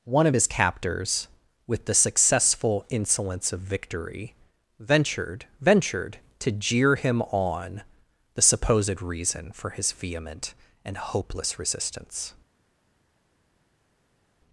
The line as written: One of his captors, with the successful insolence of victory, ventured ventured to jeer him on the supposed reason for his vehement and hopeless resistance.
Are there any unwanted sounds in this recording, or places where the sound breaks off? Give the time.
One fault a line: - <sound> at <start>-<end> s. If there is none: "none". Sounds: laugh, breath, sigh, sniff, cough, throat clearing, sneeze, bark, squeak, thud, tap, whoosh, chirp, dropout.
none